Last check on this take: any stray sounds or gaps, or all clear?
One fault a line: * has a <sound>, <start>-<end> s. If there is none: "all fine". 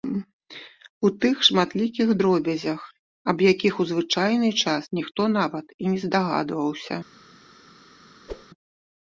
* has a whoosh, 8.3-8.5 s